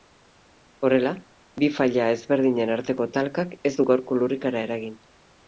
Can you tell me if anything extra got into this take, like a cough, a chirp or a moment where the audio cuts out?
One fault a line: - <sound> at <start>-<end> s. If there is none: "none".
none